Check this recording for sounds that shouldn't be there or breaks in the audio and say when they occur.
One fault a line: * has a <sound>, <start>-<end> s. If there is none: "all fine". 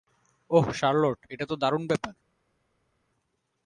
all fine